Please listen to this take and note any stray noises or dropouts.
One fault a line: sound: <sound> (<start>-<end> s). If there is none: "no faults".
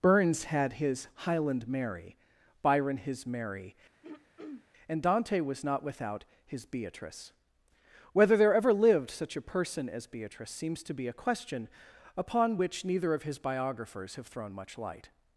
sound: throat clearing (4.0-4.7 s)